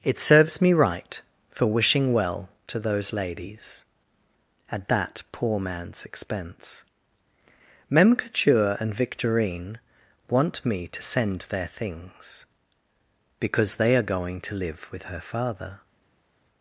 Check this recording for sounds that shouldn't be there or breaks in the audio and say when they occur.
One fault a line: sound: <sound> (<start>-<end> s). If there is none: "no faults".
no faults